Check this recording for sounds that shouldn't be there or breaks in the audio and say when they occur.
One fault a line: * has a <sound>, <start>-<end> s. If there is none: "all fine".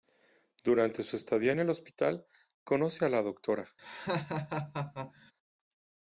* has a laugh, 3.8-5.3 s